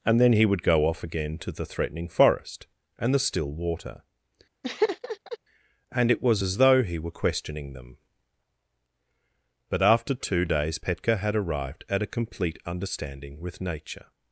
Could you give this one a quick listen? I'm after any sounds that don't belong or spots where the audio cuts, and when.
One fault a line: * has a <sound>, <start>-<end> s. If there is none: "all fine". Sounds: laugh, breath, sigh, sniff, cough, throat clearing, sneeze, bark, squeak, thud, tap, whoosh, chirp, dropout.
* has a laugh, 4.6-5.4 s